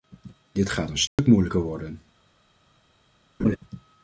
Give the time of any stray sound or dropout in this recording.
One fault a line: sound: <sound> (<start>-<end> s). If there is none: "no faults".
sound: dropout (1.1-1.2 s)
sound: laugh (3.4-3.6 s)